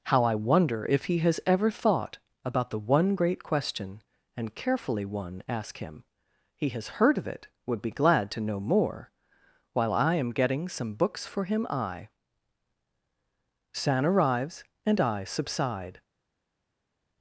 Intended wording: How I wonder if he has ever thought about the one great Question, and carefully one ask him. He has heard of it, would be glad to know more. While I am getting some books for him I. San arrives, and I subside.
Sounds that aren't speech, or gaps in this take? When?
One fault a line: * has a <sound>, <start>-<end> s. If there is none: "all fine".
all fine